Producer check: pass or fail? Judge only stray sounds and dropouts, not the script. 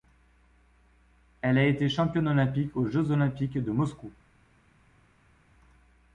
pass